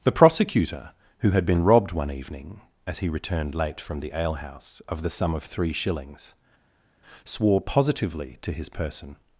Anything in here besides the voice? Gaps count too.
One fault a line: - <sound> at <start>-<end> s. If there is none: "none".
none